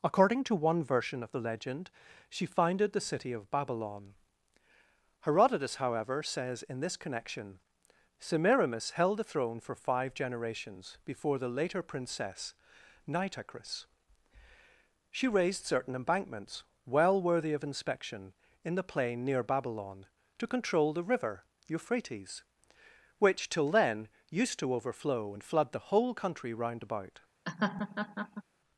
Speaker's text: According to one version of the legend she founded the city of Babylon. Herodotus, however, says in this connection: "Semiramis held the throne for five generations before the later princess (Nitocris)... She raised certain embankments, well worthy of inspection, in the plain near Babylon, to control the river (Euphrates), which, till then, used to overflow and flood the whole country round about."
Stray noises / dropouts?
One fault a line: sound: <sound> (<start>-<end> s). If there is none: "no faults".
sound: laugh (27.5-28.4 s)